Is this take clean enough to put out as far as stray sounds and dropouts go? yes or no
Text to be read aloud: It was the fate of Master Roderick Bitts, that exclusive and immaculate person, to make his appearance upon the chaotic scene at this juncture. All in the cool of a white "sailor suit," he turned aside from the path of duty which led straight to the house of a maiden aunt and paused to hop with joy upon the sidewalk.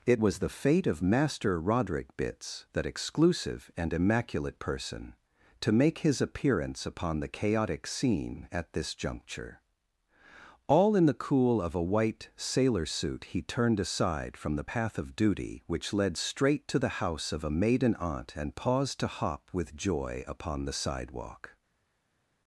yes